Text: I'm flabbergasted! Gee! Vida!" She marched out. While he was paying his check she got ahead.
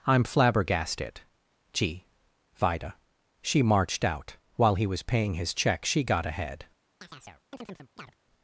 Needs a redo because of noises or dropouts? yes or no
yes